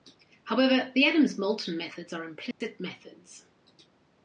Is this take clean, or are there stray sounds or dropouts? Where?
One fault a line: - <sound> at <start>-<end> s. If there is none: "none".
- dropout at 2.5-2.6 s